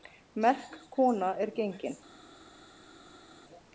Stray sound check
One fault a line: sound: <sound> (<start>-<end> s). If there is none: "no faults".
no faults